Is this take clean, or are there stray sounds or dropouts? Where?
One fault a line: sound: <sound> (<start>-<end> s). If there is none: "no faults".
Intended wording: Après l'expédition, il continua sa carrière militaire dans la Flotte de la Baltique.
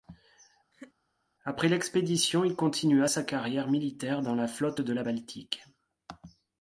sound: laugh (0.7-0.9 s)